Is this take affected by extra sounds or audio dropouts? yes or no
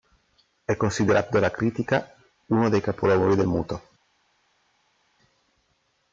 no